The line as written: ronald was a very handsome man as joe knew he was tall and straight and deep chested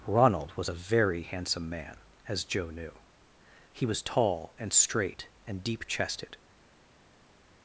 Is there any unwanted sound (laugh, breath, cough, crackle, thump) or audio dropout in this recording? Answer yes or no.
no